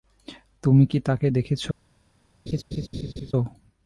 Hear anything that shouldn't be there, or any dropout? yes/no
yes